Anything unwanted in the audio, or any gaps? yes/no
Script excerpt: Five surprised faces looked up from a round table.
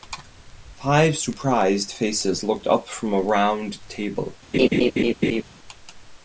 yes